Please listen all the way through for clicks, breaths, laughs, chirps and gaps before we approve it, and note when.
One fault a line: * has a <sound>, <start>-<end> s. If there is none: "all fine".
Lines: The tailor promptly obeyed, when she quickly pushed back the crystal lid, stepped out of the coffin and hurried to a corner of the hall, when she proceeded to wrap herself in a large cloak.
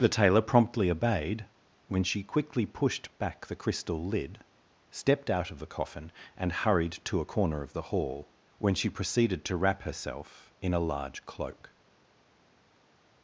all fine